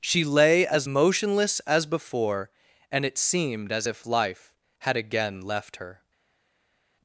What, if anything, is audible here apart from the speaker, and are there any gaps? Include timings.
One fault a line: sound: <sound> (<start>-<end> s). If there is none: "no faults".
no faults